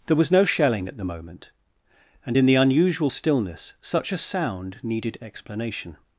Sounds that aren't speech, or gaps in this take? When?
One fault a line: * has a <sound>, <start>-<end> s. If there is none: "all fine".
all fine